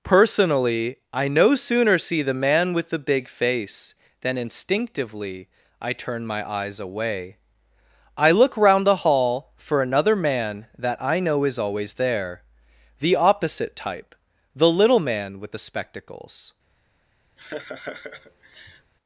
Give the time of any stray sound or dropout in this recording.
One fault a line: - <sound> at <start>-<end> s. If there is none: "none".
- laugh at 17.4-18.9 s